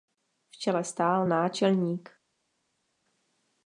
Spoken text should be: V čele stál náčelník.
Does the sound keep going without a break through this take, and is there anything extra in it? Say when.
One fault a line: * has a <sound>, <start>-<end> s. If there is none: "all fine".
all fine